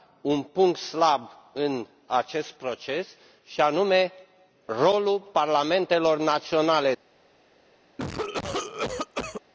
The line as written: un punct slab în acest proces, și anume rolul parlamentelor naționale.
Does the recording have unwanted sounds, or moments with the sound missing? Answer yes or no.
yes